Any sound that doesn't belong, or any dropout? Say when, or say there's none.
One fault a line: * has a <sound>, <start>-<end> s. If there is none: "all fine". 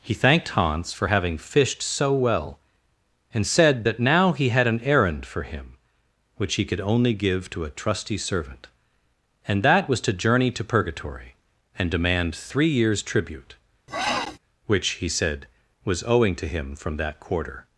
* has a sniff, 13.9-14.4 s